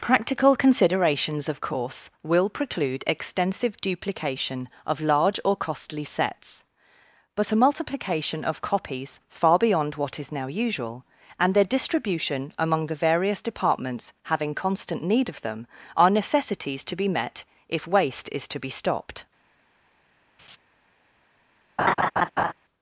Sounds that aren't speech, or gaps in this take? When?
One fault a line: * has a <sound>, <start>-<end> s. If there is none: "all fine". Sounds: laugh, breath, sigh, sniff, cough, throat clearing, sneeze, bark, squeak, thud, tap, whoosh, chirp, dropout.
* has a laugh, 20.4-20.6 s
* has a laugh, 21.8-22.5 s